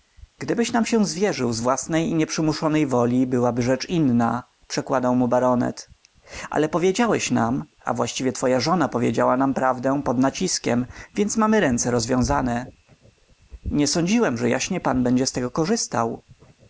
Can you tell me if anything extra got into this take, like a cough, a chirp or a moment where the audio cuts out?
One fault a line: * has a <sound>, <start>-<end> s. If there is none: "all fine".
all fine